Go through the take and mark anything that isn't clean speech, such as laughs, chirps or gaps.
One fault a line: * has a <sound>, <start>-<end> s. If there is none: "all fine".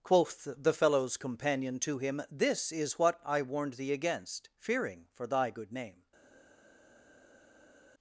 all fine